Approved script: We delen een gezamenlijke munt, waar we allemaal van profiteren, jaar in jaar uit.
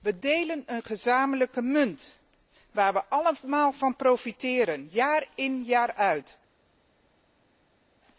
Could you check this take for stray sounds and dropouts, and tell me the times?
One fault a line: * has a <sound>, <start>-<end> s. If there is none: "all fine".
all fine